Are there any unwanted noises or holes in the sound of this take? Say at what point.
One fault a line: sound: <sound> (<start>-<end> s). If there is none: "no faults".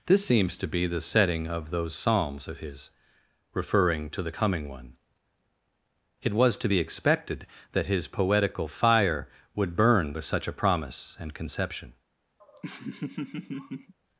sound: laugh (12.4-13.9 s)